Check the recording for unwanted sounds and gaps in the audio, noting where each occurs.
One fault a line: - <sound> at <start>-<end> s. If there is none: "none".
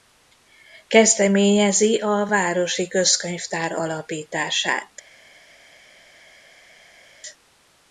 none